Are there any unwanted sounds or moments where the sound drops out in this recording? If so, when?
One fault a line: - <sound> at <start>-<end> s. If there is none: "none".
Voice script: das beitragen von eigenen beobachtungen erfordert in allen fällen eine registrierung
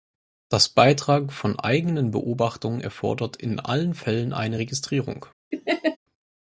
- laugh at 5.5-6.0 s